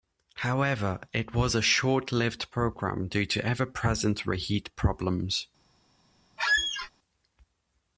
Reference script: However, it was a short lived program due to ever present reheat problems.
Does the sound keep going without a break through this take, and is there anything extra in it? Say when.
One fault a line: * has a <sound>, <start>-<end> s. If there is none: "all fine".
* has a squeak, 6.4-6.9 s